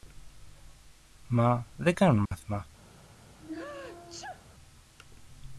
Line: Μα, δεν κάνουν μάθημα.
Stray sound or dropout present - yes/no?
yes